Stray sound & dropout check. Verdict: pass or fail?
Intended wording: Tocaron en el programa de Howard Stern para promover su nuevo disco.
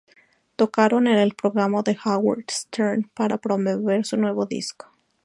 pass